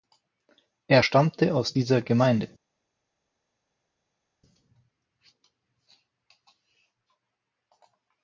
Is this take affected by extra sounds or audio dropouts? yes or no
no